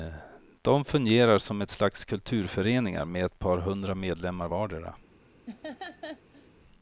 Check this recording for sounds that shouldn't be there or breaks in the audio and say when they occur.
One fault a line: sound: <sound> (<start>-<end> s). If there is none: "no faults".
sound: laugh (5.5-6.5 s)